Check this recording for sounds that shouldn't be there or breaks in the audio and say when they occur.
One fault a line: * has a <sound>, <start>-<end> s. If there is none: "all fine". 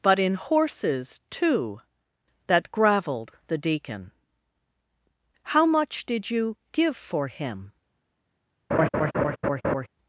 * has a laugh, 8.7-9.9 s